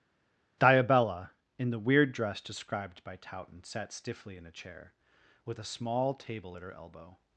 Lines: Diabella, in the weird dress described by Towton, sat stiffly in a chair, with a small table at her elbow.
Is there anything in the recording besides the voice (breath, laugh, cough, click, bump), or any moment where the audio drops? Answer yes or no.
no